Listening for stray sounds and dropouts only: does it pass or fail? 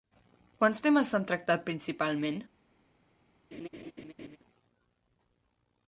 fail